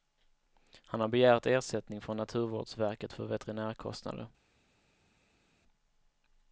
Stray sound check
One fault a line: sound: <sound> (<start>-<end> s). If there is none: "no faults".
no faults